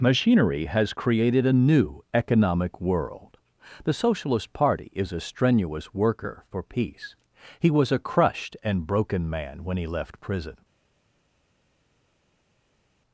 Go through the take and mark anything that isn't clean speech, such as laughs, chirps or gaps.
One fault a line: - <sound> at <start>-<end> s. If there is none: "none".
none